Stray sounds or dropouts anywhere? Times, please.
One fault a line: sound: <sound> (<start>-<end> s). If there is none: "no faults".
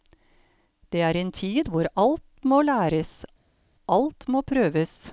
no faults